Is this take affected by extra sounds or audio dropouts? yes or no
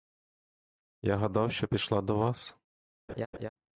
yes